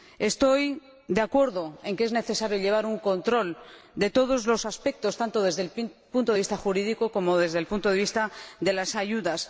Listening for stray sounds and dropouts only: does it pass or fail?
pass